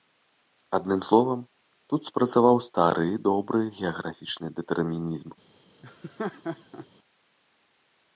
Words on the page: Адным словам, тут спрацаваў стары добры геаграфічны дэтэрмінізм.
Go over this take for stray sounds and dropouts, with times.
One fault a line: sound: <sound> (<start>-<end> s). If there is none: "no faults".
sound: laugh (5.8-6.9 s)